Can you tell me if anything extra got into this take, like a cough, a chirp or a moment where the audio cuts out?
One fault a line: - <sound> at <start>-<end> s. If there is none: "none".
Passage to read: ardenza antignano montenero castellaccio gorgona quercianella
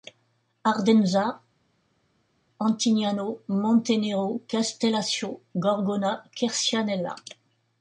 none